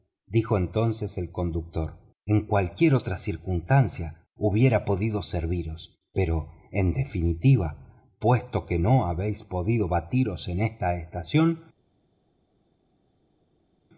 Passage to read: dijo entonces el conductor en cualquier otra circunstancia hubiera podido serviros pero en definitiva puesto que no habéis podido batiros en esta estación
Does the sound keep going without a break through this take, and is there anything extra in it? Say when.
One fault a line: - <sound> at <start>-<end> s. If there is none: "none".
none